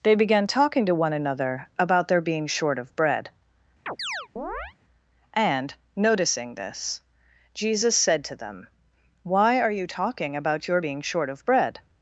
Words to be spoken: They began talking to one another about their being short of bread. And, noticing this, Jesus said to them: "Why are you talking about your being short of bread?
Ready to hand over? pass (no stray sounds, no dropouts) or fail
fail